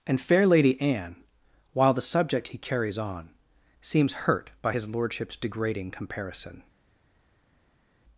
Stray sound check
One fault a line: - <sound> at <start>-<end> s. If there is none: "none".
none